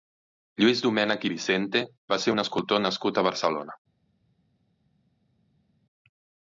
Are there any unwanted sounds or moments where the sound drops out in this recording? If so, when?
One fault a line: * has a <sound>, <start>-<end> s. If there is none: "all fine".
all fine